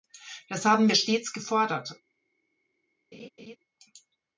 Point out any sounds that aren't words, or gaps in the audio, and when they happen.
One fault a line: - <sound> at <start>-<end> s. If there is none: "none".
- laugh at 3.1-3.6 s